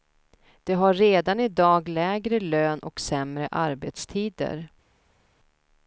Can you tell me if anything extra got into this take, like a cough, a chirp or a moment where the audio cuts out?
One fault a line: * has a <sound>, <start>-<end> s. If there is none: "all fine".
all fine